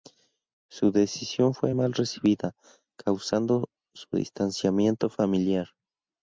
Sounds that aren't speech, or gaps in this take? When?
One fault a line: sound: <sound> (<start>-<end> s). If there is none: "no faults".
no faults